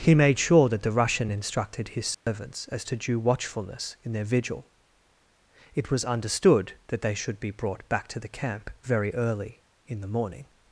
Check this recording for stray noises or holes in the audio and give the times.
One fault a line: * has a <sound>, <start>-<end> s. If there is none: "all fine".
* has a dropout, 2.1-2.3 s